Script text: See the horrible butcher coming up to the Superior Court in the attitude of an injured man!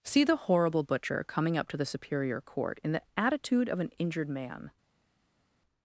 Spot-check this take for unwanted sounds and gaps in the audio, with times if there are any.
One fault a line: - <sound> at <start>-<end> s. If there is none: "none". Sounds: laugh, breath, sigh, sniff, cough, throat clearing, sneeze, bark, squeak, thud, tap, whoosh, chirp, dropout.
none